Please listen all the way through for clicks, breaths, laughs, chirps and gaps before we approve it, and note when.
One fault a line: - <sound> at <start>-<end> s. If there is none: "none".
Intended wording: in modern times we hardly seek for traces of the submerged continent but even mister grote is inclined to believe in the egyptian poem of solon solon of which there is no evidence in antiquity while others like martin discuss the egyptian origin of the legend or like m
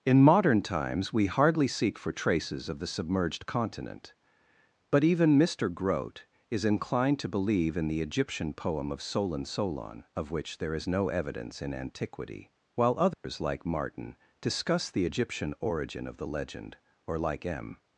- dropout at 13.1-13.2 s